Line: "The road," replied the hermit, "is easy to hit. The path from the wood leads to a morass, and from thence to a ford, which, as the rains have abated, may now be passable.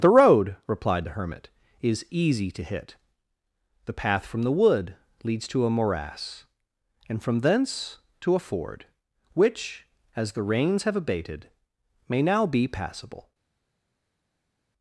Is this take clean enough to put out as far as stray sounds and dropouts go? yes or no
yes